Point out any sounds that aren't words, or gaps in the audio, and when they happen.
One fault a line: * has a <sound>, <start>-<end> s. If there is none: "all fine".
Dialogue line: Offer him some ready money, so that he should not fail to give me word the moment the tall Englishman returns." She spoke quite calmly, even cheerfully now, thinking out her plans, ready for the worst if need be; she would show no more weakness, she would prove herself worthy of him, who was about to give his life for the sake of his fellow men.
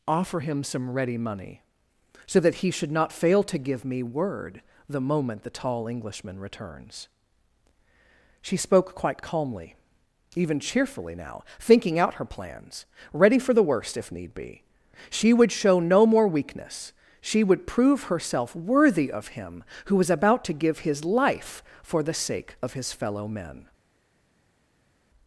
all fine